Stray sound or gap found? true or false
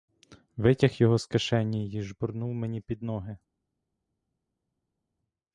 false